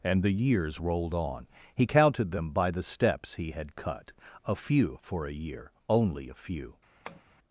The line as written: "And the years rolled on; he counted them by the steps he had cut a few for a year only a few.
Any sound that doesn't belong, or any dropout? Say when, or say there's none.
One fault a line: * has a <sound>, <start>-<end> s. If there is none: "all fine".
* has a tap, 7.1-7.2 s